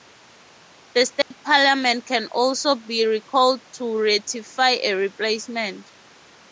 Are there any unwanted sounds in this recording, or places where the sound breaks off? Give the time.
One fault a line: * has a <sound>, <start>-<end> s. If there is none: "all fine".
* has a dropout, 1.2-1.3 s